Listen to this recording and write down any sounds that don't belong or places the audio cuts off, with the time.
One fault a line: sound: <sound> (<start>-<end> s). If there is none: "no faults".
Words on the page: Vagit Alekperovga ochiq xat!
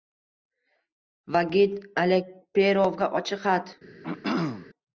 sound: throat clearing (4.0-4.7 s)